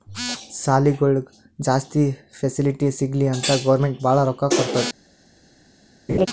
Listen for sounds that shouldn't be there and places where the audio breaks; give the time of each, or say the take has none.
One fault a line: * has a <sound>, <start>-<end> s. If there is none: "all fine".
* has a laugh, 6.1-6.3 s